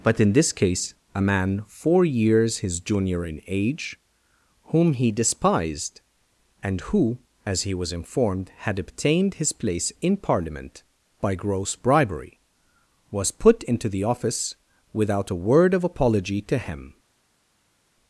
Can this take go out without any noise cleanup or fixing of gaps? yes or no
yes